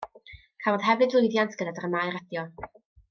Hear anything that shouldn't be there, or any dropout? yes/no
no